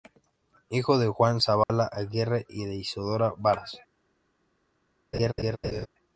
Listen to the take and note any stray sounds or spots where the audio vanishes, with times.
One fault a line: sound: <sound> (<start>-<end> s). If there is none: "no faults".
sound: dropout (1.6-1.7 s)
sound: laugh (5.1-5.9 s)